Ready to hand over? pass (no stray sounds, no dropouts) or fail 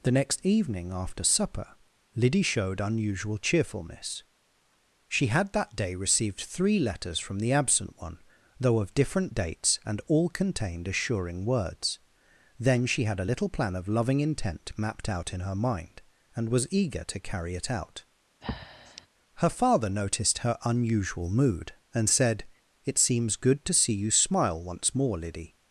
fail